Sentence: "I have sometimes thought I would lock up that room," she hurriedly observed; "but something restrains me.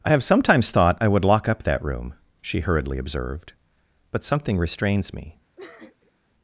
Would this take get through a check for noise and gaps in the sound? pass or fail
fail